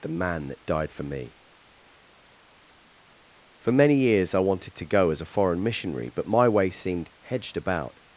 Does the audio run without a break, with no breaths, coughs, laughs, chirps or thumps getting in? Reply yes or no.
yes